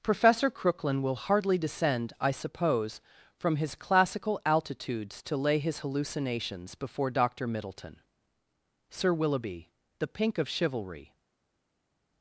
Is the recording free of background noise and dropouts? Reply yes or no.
yes